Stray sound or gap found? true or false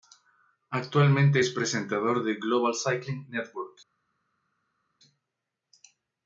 false